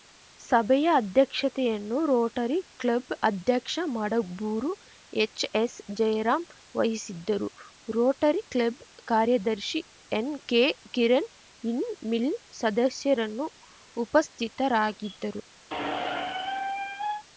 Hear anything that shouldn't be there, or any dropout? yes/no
yes